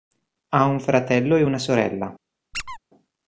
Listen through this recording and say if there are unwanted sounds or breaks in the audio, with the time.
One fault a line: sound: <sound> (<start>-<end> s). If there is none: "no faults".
sound: squeak (2.5-2.8 s)